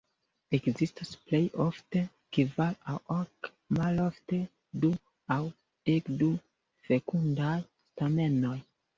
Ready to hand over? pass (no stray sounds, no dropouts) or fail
pass